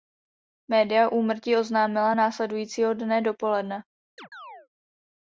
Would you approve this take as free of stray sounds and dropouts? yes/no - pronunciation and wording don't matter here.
no